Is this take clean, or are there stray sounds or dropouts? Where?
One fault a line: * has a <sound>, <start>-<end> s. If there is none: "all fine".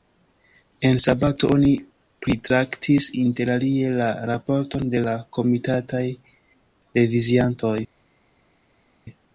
all fine